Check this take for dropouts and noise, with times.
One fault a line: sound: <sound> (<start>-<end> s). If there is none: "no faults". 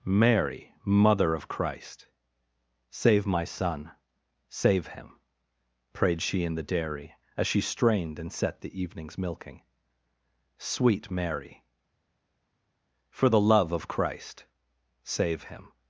no faults